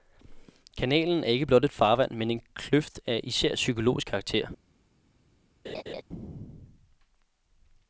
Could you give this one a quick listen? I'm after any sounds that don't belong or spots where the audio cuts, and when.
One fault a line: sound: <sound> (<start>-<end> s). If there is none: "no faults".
sound: laugh (5.6-6.0 s)